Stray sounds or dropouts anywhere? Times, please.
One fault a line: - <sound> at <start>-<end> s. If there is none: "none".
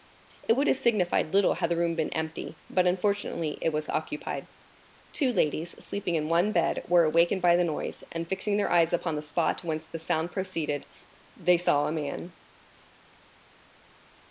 none